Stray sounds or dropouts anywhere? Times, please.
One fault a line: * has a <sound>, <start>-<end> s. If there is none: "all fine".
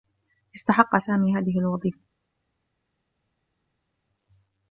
all fine